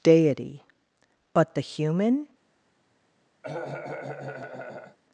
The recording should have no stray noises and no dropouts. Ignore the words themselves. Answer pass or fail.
fail